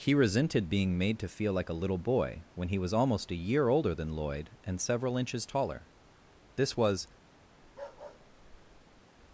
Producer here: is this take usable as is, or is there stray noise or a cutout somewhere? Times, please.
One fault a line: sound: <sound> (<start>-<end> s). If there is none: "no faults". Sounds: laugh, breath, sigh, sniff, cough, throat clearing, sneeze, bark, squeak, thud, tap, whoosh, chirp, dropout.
sound: bark (7.6-9.0 s)